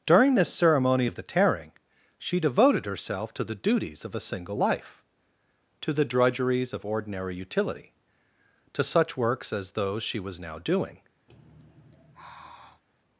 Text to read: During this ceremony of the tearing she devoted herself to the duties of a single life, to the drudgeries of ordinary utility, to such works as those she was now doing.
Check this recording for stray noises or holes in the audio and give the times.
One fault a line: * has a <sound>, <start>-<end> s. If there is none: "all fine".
* has a sigh, 11.3-12.8 s